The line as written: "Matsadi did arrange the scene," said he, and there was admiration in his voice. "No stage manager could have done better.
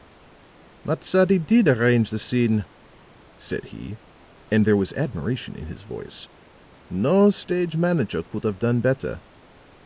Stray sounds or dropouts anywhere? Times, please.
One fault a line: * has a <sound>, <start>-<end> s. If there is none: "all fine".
all fine